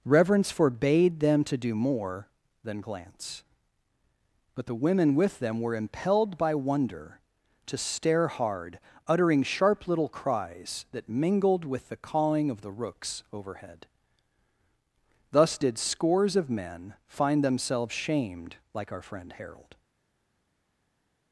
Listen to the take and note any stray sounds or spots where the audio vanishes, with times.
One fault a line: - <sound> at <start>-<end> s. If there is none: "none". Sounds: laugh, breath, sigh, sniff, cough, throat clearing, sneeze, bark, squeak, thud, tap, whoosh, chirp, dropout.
none